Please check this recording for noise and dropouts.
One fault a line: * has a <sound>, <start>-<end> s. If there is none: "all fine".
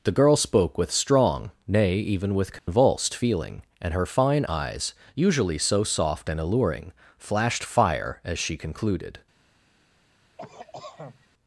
* has a dropout, 2.6-2.7 s
* has a cough, 10.4-11.3 s